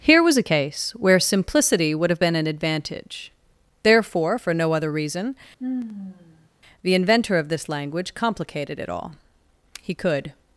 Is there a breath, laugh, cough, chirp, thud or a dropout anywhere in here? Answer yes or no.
yes